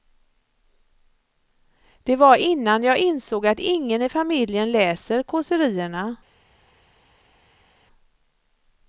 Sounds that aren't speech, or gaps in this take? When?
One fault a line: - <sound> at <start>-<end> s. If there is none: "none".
none